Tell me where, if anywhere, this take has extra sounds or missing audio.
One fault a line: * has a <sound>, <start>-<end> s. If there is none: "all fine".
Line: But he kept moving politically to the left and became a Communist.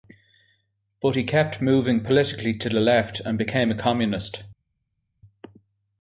all fine